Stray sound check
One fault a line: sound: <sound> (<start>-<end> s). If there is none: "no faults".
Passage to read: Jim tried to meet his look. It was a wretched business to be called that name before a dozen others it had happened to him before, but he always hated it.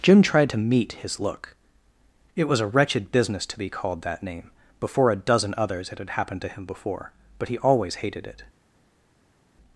no faults